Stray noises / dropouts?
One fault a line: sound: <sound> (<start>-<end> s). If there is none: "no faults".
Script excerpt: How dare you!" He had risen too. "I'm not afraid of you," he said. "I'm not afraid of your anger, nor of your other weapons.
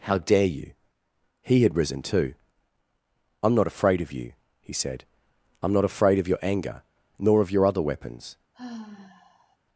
sound: sigh (8.5-9.6 s)